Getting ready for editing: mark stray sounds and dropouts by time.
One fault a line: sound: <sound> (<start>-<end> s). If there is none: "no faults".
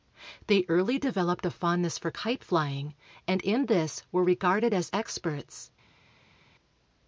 no faults